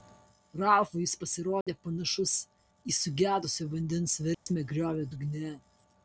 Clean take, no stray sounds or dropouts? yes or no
no